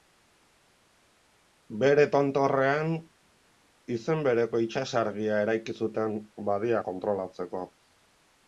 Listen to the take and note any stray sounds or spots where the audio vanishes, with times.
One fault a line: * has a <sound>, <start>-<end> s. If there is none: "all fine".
all fine